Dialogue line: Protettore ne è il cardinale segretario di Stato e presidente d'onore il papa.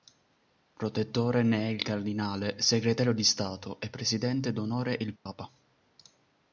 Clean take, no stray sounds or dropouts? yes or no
no